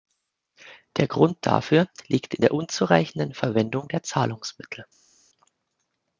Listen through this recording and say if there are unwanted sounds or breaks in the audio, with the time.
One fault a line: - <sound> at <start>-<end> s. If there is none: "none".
none